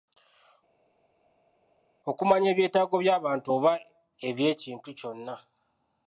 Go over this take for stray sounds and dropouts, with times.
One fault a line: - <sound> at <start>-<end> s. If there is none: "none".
none